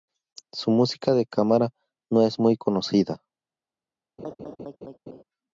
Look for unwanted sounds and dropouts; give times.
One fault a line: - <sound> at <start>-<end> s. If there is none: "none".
- laugh at 4.2-5.2 s